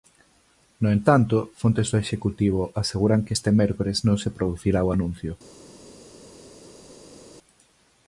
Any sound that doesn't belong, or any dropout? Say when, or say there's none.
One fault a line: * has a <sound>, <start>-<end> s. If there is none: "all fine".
all fine